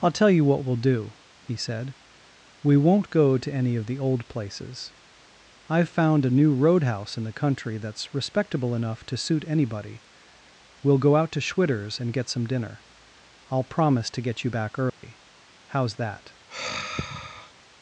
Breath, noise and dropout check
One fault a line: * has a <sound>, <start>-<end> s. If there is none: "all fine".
* has a dropout, 14.9-15.0 s
* has a sigh, 16.5-17.5 s